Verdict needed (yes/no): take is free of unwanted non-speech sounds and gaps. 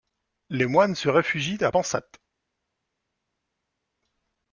yes